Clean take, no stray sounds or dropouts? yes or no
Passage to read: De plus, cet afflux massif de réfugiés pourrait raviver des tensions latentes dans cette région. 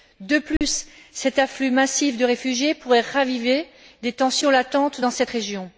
no